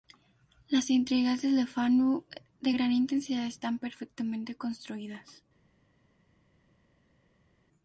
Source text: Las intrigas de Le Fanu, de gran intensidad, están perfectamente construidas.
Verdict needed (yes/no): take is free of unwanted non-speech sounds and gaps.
yes